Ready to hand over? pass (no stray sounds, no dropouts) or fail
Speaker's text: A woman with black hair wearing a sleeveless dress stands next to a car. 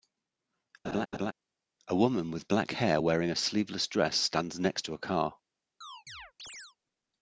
fail